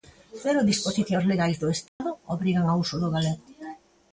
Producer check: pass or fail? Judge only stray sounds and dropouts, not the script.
fail